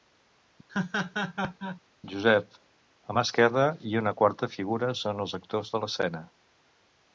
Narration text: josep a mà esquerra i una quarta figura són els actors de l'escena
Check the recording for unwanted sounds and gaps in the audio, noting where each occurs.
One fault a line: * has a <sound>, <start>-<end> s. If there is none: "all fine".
* has a laugh, 0.7-1.8 s